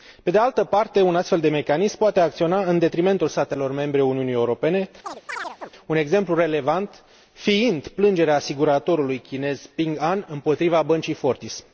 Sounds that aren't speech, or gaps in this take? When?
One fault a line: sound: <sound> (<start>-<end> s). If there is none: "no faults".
sound: chirp (5.0-5.7 s)